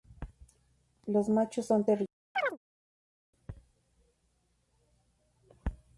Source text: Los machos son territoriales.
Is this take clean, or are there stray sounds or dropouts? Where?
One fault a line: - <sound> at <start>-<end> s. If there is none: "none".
- chirp at 2.3-2.6 s